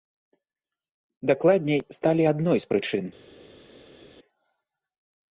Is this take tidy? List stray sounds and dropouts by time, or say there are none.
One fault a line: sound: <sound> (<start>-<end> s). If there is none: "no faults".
no faults